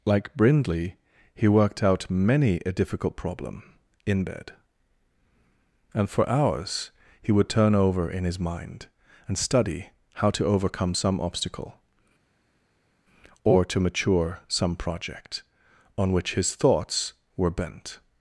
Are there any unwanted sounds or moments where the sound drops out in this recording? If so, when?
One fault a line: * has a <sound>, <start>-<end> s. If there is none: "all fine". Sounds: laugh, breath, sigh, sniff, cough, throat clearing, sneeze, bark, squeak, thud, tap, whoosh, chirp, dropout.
all fine